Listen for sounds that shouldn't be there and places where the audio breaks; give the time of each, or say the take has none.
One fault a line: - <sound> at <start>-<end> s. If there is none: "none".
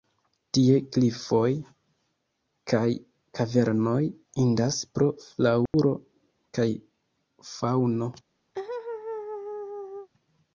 - dropout at 5.7-5.7 s
- laugh at 8.5-10.1 s